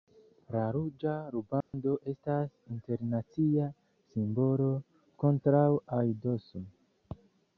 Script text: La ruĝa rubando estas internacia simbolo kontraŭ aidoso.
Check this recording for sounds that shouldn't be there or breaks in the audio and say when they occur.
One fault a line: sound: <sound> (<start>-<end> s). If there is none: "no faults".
sound: dropout (1.6-1.7 s)